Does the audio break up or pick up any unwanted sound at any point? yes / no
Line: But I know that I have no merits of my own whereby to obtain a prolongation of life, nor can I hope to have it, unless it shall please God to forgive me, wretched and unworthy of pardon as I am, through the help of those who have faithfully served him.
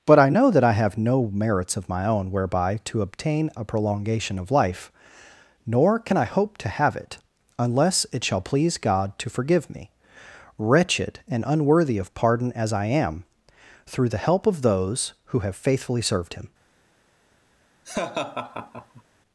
yes